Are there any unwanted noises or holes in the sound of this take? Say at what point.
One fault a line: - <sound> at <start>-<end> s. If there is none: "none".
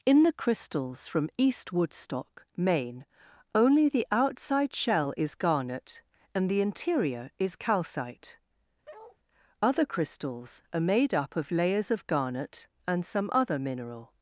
- bark at 8.8-9.2 s